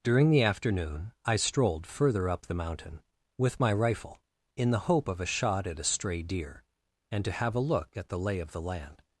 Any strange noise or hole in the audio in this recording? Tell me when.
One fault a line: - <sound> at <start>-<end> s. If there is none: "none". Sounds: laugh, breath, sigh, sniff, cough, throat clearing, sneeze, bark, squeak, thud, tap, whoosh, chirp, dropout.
none